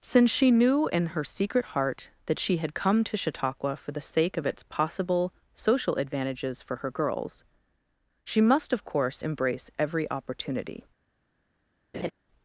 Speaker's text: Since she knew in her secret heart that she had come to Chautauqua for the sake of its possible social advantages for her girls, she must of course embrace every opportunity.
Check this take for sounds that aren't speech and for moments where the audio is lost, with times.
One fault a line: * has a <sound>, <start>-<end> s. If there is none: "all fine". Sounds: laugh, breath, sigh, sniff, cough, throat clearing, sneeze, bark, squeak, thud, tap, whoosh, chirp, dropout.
* has a laugh, 11.9-12.1 s